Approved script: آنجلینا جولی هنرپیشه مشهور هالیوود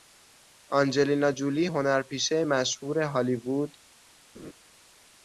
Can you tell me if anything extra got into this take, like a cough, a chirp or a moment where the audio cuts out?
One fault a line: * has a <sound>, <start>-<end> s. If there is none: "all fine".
* has a laugh, 4.3-4.5 s